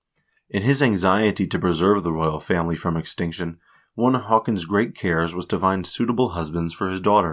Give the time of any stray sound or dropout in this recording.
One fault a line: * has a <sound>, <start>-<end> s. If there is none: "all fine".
all fine